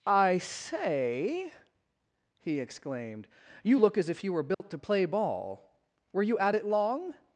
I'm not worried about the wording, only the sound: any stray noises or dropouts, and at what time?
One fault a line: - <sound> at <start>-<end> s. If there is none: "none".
- dropout at 4.5-4.6 s